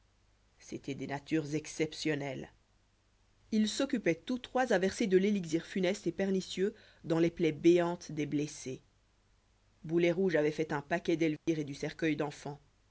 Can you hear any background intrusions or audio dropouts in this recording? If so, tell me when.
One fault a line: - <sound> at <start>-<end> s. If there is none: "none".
- dropout at 11.4-11.5 s